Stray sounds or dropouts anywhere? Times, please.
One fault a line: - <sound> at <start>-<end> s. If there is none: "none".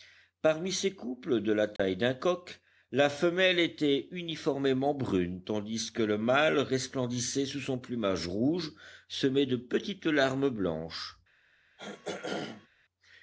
- dropout at 1.8-1.8 s
- throat clearing at 11.8-12.7 s